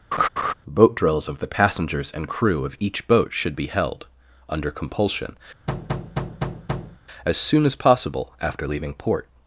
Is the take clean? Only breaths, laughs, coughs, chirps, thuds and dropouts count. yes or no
no